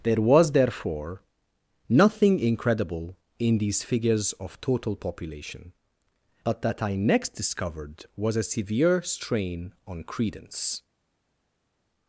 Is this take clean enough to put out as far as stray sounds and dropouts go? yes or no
yes